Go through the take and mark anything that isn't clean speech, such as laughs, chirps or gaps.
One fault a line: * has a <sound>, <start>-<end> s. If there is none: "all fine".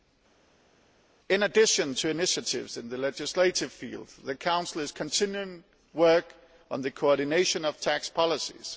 all fine